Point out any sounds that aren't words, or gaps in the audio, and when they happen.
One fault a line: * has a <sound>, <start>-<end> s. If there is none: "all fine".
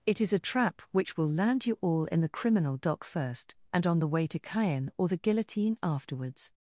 all fine